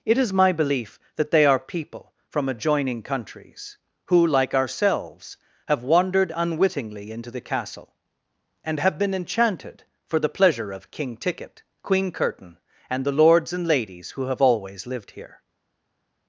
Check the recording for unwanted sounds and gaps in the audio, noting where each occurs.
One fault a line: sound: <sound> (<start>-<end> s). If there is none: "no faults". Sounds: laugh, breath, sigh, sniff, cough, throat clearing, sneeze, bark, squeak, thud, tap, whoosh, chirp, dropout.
no faults